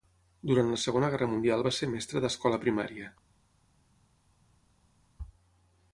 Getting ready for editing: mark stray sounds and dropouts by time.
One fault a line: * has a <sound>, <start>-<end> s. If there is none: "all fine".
all fine